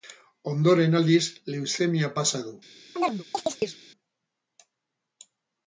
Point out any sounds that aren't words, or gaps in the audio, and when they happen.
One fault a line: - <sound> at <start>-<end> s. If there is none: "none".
- chirp at 3.0-3.8 s